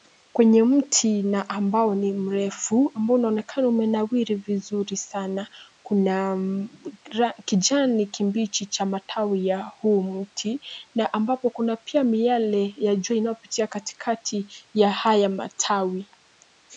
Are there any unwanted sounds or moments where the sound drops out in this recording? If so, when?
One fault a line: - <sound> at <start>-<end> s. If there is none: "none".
none